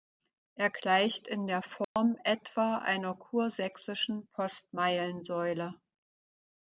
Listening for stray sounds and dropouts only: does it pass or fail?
fail